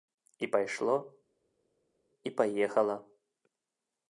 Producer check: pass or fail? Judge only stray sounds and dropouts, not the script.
pass